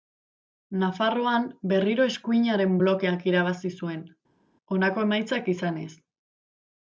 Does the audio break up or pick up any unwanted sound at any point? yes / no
no